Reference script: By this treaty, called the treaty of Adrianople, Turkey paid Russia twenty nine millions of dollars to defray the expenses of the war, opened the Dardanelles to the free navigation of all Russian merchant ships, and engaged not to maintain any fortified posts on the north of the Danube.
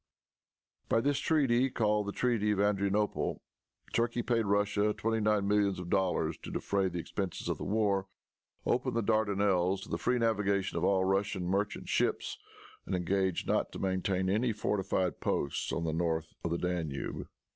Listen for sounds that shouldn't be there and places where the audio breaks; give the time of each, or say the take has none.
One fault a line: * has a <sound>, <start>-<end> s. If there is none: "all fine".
all fine